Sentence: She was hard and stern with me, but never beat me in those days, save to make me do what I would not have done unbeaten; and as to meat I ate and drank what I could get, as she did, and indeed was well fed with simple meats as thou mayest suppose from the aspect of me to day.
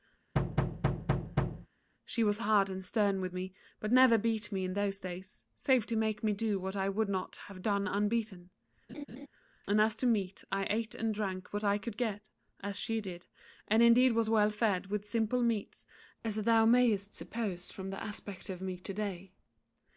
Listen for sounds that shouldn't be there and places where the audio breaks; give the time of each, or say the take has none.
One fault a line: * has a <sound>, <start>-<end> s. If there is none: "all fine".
* has a thud, 0.3-1.7 s
* has a laugh, 8.9-9.3 s